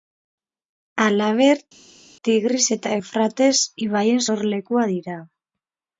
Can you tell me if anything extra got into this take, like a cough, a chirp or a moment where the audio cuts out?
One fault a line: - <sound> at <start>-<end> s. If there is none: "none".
none